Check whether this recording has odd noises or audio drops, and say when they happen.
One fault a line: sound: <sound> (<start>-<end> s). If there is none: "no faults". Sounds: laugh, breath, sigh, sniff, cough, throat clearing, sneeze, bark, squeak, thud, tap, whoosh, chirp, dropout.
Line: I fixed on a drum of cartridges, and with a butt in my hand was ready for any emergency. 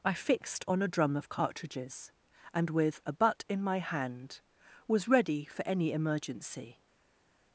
no faults